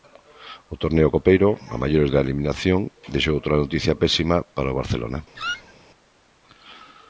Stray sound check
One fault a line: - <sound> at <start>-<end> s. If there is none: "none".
- squeak at 5.4-5.7 s